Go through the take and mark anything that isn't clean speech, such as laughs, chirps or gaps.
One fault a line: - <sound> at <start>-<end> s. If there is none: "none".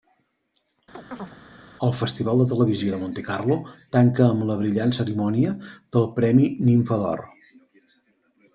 - chirp at 0.9-1.4 s